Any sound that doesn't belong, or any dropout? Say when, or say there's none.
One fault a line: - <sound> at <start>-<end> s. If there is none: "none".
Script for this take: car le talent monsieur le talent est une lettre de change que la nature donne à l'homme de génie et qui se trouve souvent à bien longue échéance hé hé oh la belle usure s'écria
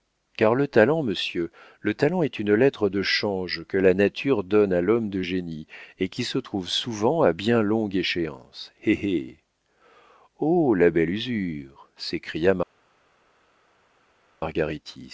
none